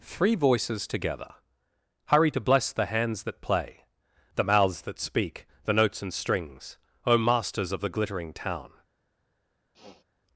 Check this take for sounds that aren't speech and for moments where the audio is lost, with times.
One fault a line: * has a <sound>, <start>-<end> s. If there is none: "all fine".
* has a sniff, 9.7-10.0 s